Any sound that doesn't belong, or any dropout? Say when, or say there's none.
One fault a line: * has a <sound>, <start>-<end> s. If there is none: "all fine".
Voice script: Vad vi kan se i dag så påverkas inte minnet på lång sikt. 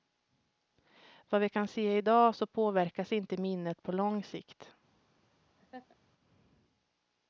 * has a laugh, 5.6-6.0 s